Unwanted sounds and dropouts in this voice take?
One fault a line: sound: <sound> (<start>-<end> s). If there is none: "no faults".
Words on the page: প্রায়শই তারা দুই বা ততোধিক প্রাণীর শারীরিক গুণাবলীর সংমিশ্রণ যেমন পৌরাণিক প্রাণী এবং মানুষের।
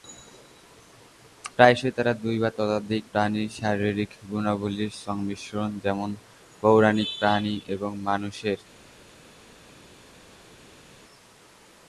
no faults